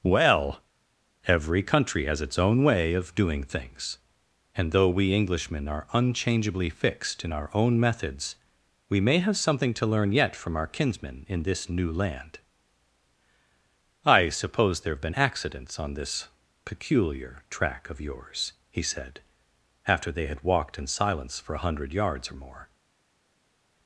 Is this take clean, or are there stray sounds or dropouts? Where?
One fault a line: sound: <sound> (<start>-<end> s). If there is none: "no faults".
no faults